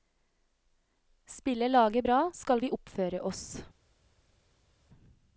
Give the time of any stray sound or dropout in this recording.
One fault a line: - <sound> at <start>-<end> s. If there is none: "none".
none